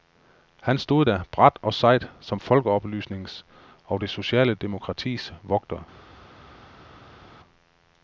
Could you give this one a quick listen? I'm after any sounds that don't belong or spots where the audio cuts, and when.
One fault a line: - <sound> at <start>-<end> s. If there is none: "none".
none